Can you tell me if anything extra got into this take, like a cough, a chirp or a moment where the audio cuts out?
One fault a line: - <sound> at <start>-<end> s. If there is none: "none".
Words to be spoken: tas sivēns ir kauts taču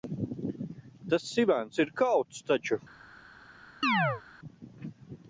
- chirp at 3.8-4.2 s